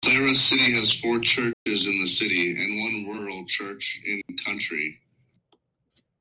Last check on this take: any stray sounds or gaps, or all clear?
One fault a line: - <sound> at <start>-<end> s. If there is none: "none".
- dropout at 1.5-1.7 s
- dropout at 4.2-4.3 s